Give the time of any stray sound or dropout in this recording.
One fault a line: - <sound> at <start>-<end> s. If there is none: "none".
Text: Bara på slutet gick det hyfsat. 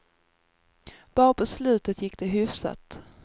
none